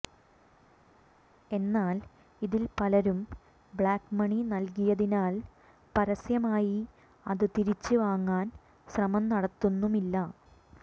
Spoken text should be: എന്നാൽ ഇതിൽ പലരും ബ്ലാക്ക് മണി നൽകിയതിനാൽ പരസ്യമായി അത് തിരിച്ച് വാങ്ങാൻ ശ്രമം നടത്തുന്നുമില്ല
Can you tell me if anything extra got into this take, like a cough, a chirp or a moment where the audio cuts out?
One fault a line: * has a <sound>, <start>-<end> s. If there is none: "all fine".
all fine